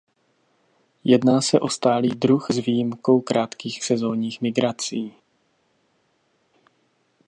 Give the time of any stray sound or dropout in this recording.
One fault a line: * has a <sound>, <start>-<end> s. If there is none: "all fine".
all fine